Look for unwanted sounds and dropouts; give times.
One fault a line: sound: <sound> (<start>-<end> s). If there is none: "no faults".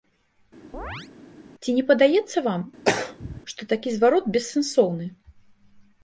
sound: chirp (0.7-1.1 s)
sound: throat clearing (2.8-3.4 s)